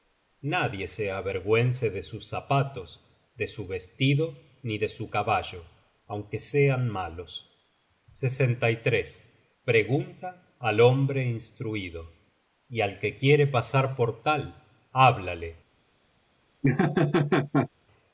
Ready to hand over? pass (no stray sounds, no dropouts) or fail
fail